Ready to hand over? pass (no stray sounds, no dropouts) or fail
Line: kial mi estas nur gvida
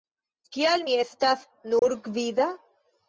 fail